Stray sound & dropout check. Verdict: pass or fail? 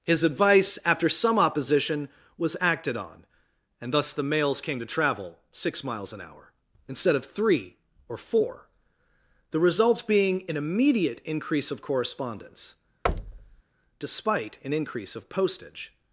fail